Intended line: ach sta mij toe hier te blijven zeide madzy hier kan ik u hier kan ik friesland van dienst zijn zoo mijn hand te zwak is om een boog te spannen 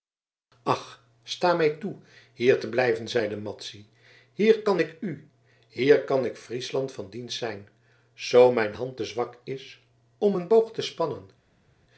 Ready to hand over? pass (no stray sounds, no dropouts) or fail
pass